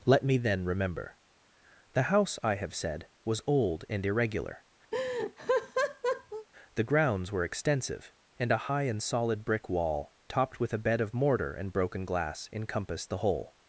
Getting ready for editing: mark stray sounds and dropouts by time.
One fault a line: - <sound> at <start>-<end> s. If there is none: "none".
- laugh at 4.9-6.5 s